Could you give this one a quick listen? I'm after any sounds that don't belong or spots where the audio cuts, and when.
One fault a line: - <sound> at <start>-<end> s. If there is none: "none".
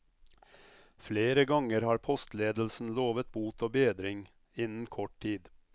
none